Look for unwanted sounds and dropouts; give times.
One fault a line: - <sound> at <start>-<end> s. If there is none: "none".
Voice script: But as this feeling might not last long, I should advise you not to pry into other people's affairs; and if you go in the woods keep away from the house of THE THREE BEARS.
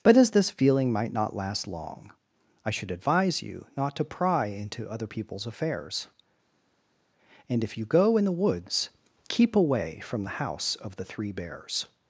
none